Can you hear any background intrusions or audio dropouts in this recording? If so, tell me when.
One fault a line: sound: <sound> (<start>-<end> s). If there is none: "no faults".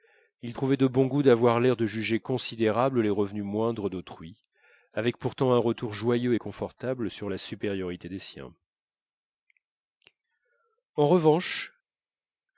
no faults